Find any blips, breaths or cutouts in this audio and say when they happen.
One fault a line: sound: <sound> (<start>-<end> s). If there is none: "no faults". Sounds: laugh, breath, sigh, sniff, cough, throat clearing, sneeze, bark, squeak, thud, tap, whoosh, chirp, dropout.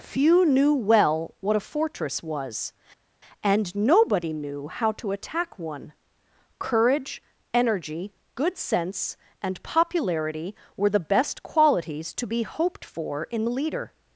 no faults